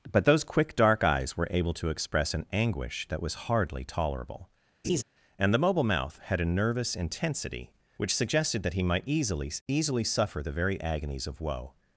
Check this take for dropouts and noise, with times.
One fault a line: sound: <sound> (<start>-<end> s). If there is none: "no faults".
sound: laugh (4.8-5.0 s)